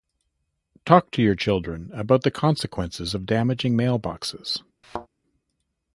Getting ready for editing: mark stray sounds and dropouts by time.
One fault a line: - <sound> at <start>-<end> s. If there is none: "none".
- thud at 4.8-5.1 s